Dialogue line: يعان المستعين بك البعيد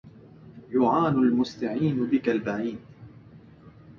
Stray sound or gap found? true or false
false